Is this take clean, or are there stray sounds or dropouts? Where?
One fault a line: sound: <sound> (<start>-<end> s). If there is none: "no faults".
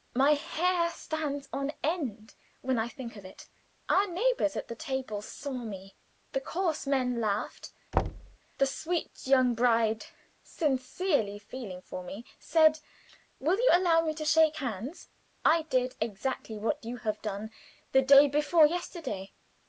sound: thud (7.9-8.4 s)